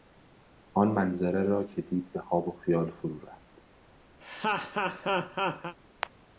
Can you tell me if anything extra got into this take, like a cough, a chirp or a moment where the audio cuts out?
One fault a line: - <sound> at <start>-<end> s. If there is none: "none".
- laugh at 4.2-5.8 s